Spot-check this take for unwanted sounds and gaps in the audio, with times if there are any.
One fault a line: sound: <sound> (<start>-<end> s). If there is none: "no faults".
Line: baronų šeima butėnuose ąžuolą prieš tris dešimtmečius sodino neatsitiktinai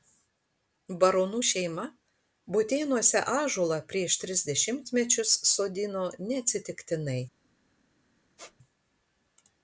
sound: squeak (8.4-8.6 s)